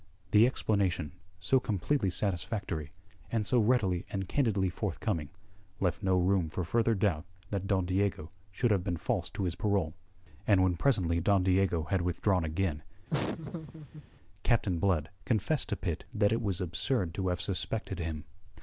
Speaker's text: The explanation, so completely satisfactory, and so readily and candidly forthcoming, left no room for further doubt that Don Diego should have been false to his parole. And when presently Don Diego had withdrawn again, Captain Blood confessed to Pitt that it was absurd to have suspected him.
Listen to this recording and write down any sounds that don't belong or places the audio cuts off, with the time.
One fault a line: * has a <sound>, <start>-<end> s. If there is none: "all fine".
* has a laugh, 13.1-14.0 s